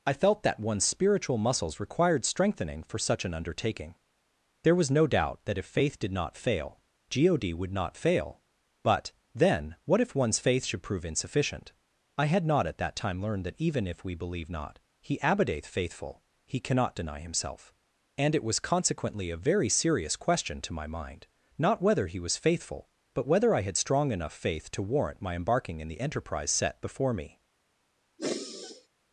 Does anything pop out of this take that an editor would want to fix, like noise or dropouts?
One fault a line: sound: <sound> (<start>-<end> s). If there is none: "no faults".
sound: sigh (28.2-28.9 s)